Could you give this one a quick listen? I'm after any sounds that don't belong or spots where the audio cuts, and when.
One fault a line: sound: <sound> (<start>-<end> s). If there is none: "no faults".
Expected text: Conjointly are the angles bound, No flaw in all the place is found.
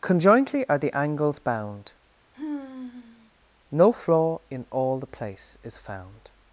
sound: sigh (2.3-3.3 s)